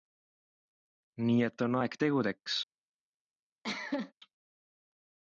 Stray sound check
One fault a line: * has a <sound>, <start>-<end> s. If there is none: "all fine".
* has a cough, 3.6-4.1 s